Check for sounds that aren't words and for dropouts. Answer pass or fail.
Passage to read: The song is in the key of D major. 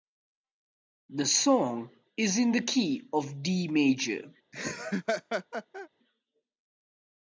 fail